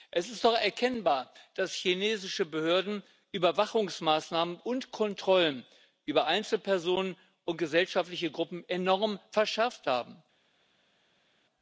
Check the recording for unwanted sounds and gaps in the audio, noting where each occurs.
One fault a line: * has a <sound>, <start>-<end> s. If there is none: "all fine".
all fine